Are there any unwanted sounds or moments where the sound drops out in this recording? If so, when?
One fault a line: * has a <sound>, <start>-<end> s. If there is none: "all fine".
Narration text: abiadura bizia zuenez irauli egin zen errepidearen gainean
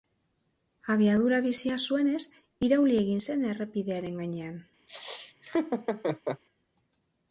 * has a laugh, 4.9-6.4 s